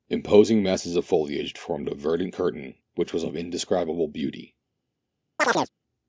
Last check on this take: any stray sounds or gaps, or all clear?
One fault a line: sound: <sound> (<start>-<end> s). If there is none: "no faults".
sound: chirp (5.4-5.7 s)